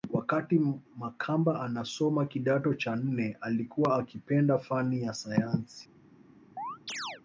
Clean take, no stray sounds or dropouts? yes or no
no